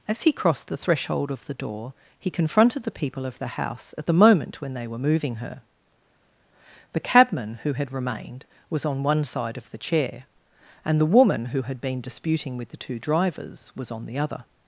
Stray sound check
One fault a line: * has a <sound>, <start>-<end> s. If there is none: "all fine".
all fine